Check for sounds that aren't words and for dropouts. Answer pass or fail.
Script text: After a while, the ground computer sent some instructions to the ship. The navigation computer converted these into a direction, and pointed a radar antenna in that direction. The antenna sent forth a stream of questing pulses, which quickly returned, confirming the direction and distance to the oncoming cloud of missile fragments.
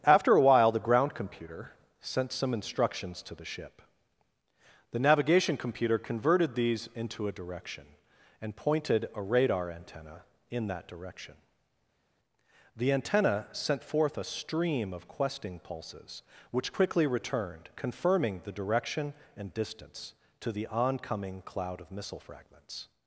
pass